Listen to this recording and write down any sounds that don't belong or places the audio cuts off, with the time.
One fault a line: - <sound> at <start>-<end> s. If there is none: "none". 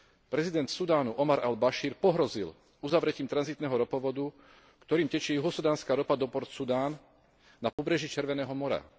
- dropout at 7.7-7.8 s